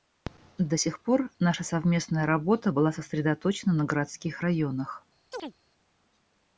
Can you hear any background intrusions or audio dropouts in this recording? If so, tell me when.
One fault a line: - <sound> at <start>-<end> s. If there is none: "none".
- chirp at 5.3-5.5 s